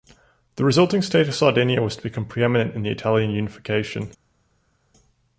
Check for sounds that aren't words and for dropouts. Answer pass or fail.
pass